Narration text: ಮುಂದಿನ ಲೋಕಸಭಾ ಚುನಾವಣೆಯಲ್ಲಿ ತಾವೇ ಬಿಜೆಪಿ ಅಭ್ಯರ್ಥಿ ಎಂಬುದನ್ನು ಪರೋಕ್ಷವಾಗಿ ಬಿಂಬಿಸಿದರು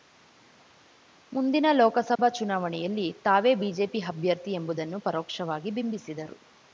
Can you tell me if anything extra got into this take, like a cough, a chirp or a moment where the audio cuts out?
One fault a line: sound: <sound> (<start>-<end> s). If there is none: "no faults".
sound: dropout (2.2-2.2 s)